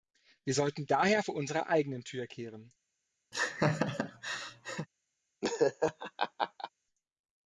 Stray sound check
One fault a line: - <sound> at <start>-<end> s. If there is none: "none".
- laugh at 3.3-4.9 s
- laugh at 5.4-6.7 s